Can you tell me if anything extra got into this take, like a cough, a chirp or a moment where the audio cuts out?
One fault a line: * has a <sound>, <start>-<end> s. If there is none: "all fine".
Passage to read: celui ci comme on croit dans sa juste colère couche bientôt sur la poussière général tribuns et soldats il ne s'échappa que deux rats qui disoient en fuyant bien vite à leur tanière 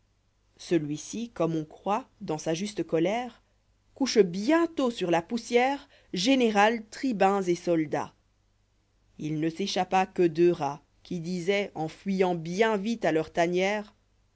all fine